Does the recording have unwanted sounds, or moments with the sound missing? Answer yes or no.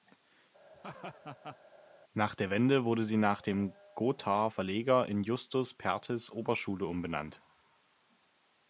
yes